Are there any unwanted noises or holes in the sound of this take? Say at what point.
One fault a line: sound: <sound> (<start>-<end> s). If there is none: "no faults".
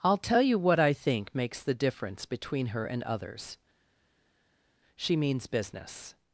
no faults